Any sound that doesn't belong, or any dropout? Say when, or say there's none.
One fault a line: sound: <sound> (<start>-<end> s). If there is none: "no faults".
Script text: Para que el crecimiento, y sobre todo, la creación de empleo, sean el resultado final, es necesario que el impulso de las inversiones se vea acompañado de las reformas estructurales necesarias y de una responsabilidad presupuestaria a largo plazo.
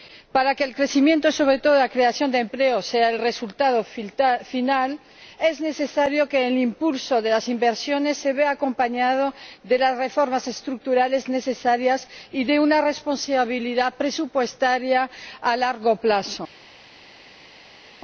no faults